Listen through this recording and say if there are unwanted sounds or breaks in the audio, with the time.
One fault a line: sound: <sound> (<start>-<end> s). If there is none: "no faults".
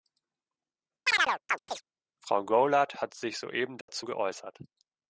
sound: chirp (1.1-1.8 s)
sound: dropout (3.8-3.9 s)